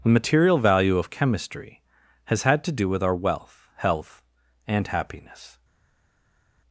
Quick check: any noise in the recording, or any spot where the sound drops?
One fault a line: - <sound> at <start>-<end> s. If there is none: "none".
none